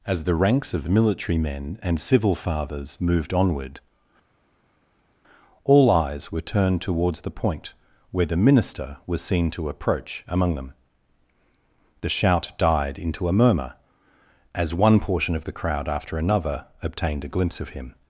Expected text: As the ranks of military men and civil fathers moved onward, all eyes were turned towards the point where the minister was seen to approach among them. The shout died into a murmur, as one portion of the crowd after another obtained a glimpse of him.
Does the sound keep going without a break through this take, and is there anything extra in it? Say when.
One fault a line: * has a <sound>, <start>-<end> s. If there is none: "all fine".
all fine